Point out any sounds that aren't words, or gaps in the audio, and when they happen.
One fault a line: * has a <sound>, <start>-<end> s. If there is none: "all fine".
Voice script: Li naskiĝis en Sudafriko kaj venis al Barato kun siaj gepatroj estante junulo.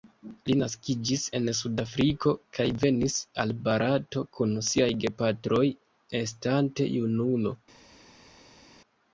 all fine